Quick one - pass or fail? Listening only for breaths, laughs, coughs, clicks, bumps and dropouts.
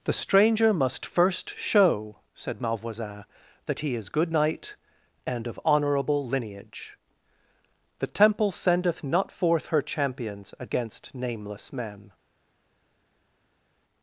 pass